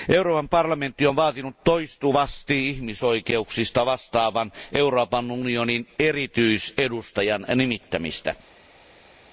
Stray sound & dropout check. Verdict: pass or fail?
pass